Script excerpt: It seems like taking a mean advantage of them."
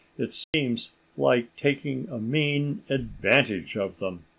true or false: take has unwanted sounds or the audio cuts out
true